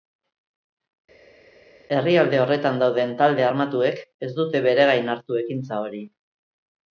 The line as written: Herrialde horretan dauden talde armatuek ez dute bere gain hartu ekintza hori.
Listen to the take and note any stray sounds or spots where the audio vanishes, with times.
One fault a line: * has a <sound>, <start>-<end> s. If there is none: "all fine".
all fine